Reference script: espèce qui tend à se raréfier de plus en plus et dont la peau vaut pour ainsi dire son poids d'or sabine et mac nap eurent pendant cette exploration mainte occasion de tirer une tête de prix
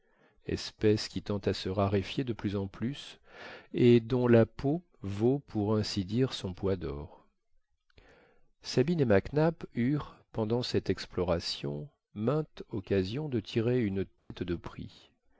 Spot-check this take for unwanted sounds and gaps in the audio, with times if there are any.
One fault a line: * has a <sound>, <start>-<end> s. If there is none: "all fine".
* has a dropout, 14.2-14.3 s